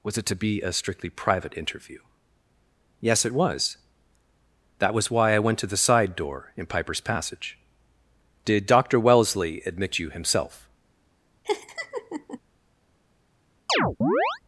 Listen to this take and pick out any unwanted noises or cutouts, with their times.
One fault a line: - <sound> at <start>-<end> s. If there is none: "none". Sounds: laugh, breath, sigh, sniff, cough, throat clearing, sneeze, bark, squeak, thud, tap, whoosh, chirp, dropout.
- laugh at 11.4-12.4 s
- chirp at 13.7-14.4 s